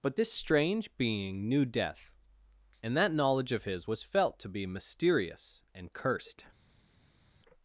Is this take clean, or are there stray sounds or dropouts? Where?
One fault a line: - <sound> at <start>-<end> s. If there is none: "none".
none